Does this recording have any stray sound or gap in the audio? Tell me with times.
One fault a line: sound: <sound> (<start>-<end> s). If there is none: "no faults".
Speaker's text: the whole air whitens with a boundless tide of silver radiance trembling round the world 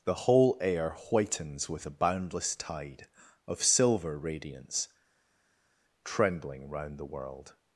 no faults